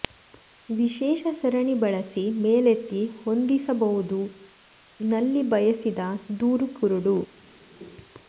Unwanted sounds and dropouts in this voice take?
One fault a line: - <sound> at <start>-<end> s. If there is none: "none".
none